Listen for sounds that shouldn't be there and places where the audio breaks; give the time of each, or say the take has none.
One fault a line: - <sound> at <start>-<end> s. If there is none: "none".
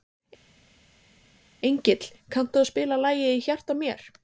none